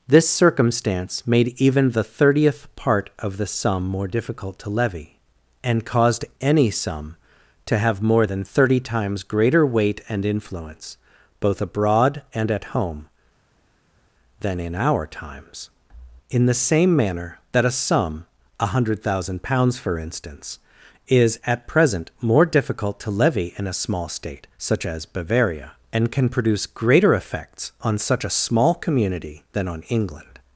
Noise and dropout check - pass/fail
pass